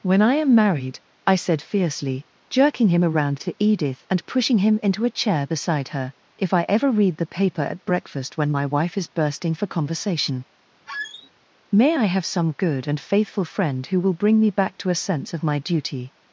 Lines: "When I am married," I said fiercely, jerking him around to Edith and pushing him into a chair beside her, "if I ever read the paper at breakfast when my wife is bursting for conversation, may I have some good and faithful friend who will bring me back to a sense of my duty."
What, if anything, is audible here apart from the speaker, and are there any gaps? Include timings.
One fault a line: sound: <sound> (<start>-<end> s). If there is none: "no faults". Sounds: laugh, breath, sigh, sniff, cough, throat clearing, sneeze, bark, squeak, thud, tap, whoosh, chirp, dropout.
sound: squeak (10.9-11.3 s)